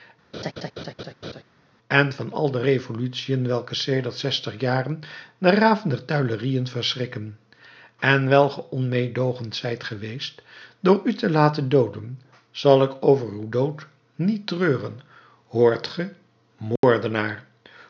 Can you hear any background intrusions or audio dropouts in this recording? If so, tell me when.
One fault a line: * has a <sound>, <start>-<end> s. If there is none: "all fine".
* has a laugh, 0.3-1.4 s
* has a dropout, 16.8-16.8 s